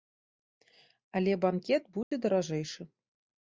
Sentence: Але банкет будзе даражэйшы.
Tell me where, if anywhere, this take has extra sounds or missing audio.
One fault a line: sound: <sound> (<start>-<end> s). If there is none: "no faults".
sound: dropout (2.0-2.1 s)